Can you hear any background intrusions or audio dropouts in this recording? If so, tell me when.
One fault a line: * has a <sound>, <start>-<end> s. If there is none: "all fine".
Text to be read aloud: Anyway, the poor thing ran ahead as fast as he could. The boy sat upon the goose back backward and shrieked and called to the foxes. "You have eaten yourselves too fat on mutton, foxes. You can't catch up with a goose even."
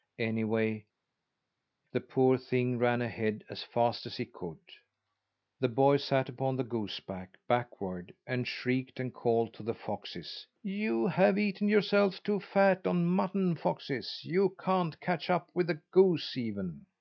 all fine